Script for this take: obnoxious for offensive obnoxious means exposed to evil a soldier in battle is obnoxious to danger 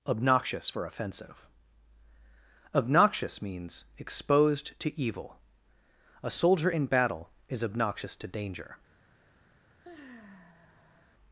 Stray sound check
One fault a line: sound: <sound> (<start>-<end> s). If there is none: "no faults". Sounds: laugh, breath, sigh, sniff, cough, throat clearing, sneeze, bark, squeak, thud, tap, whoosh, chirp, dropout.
sound: sigh (9.8-11.1 s)